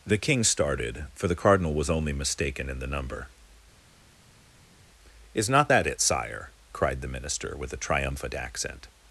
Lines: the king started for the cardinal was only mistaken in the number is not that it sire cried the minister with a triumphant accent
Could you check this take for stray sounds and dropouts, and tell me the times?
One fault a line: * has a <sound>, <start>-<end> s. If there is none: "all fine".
all fine